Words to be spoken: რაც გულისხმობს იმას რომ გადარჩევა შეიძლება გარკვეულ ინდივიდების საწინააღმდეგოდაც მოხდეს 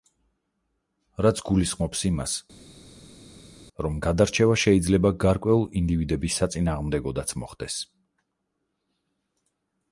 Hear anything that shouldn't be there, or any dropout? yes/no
no